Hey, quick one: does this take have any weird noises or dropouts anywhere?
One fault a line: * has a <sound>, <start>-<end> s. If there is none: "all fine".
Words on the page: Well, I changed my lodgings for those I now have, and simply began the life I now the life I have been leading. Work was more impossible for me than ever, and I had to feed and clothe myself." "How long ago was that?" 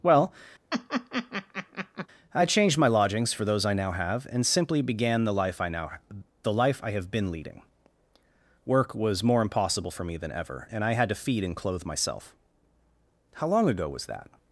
* has a laugh, 0.7-2.1 s